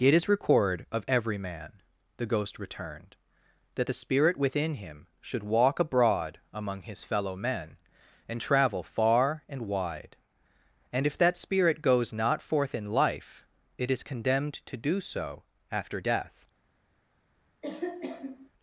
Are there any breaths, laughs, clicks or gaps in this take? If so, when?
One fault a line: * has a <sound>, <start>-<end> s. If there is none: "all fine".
* has a cough, 17.6-18.5 s